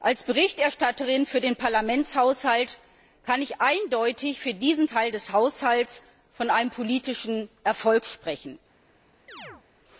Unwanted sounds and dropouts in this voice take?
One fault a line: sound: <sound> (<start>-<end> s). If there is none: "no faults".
sound: chirp (9.3-9.6 s)